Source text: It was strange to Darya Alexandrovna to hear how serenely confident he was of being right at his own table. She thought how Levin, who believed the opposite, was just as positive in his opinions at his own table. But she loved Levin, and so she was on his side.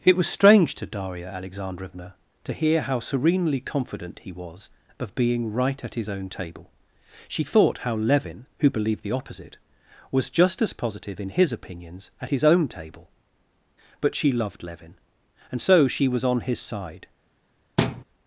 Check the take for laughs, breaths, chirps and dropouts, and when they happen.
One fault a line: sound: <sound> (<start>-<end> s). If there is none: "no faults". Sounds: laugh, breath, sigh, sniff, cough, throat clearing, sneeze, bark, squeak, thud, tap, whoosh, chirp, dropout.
sound: thud (17.8-18.0 s)